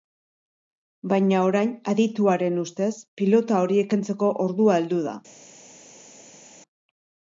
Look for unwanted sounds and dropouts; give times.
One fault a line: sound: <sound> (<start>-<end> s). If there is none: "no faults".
no faults